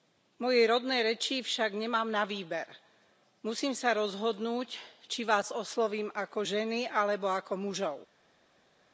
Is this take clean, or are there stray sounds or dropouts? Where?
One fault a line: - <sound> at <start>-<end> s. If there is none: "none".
none